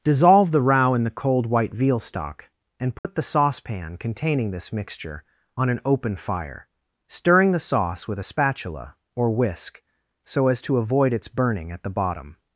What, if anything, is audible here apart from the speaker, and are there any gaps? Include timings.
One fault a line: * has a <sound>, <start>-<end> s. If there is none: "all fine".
* has a dropout, 3.0-3.0 s